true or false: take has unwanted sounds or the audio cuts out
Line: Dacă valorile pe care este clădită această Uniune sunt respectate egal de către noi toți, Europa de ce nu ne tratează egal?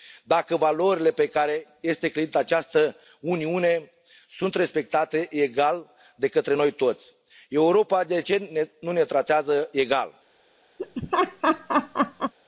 true